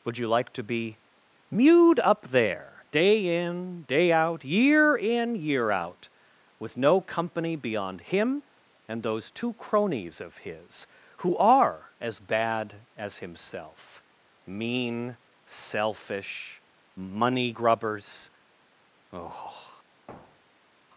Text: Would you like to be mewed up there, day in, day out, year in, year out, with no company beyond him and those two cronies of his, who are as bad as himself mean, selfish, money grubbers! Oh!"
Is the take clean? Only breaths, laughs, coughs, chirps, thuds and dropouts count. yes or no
no